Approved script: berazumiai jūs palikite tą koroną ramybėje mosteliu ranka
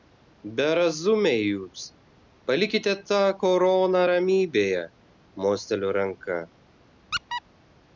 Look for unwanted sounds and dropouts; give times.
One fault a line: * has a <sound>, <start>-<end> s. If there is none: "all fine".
* has a squeak, 7.1-7.4 s